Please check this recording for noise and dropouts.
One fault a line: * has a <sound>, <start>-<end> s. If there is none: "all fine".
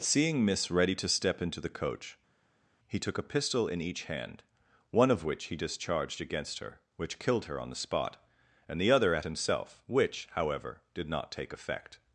all fine